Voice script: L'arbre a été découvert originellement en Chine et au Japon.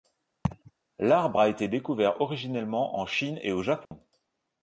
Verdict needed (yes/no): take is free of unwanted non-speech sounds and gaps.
no